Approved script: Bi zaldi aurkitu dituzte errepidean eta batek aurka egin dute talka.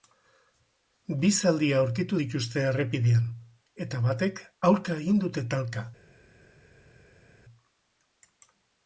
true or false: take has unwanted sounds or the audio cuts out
false